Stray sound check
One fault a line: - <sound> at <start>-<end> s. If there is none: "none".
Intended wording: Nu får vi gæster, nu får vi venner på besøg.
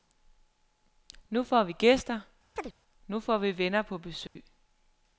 - chirp at 2.6-2.7 s
- dropout at 4.3-4.4 s